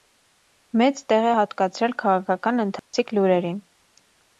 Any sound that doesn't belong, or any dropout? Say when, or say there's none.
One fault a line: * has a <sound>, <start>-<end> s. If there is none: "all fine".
* has a dropout, 2.8-2.9 s